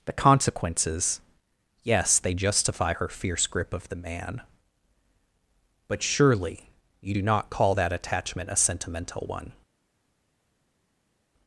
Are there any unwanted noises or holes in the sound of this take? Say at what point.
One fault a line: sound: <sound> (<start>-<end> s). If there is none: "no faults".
no faults